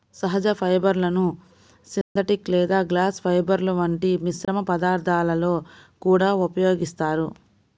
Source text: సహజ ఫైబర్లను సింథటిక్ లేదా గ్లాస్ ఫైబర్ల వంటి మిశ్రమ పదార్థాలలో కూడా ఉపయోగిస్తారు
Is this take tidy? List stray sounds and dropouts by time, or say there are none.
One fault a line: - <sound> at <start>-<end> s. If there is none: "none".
- dropout at 2.0-2.2 s
- dropout at 4.4-4.5 s